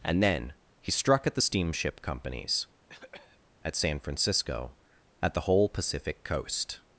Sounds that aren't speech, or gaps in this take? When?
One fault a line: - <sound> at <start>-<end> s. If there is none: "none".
- cough at 2.9-3.4 s